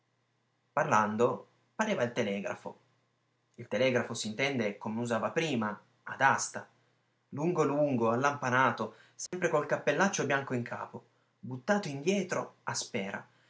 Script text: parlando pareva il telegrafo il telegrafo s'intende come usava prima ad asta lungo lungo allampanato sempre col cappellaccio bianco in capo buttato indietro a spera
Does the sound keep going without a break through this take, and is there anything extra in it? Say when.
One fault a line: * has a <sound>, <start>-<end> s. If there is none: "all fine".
* has a dropout, 9.3-9.3 s